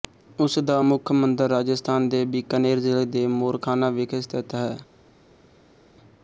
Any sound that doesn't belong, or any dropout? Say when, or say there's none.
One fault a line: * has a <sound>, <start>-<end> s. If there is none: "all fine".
all fine